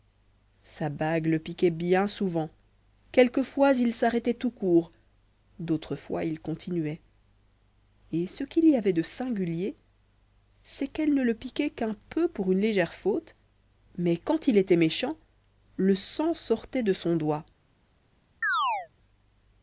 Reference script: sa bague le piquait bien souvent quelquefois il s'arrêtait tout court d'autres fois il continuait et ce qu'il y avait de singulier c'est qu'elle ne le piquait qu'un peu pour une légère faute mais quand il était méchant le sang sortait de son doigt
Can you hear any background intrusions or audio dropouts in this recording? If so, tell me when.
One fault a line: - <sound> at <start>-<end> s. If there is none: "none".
- chirp at 18.4-18.9 s